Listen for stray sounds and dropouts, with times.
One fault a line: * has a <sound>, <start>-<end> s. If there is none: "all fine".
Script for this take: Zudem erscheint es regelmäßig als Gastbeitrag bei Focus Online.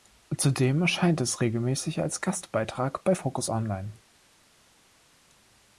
all fine